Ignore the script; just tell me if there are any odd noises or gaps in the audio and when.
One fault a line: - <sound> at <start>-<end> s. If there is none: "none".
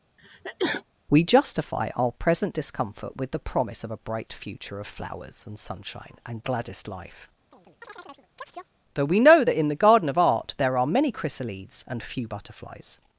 - sneeze at 0.2-0.8 s
- chirp at 7.5-8.7 s